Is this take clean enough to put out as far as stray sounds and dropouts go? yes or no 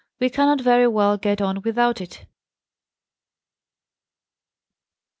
yes